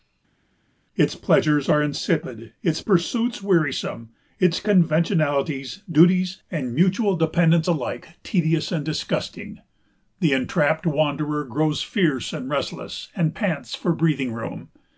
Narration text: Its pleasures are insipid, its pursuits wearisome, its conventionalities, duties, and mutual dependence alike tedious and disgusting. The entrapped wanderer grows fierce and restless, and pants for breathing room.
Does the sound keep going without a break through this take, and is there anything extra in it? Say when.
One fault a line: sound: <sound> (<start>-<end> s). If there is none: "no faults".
no faults